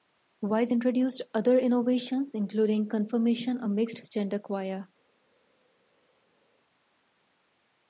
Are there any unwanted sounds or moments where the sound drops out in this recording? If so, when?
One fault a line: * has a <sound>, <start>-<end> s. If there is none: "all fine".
all fine